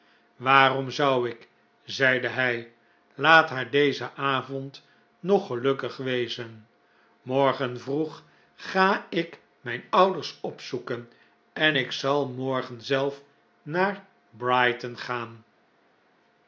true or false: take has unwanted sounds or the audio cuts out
false